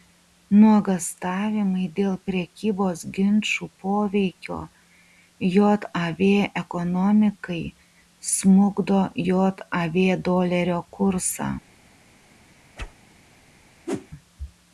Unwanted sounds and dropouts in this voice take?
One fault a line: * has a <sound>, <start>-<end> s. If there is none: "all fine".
* has a whoosh, 12.8-12.9 s
* has a whoosh, 13.9-14.1 s